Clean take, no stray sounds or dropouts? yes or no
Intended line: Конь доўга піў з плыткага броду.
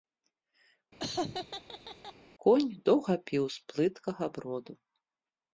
no